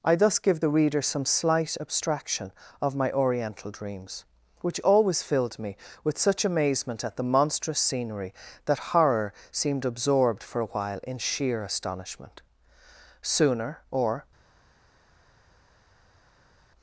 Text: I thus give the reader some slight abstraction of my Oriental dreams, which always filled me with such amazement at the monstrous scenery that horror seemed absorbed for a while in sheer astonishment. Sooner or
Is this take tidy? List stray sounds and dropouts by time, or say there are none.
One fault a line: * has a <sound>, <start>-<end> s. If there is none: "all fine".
all fine